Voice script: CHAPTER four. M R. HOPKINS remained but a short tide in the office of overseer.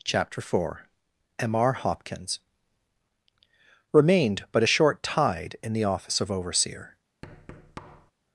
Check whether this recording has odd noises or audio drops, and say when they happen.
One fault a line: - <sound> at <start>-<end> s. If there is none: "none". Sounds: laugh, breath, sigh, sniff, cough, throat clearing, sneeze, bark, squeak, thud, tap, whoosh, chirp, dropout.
- thud at 7.2-8.1 s